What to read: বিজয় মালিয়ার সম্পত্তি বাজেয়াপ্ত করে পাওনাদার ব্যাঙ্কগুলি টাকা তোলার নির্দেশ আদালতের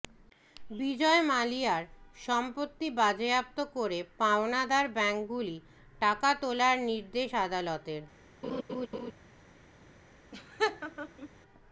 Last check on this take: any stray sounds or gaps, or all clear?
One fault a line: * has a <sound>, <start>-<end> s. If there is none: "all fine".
* has a laugh, 8.4-9.1 s
* has a laugh, 10.3-11.3 s